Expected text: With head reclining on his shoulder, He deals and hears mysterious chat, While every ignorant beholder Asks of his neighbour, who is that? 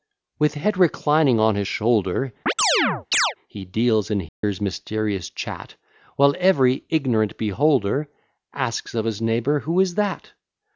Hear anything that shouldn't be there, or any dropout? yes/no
yes